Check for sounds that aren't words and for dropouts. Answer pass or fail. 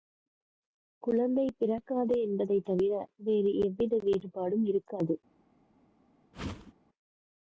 fail